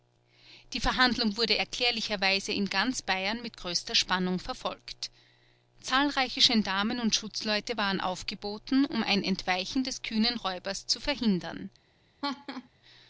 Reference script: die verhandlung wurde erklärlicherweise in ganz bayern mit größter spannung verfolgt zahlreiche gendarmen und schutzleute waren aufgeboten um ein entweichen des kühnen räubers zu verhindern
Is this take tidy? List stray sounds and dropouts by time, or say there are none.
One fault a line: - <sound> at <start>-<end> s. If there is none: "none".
- laugh at 12.2-12.7 s